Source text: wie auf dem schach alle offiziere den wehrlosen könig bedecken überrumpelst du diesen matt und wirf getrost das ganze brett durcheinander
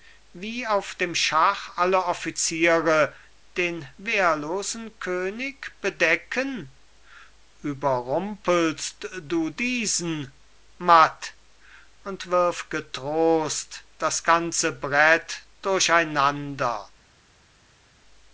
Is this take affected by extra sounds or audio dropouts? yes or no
no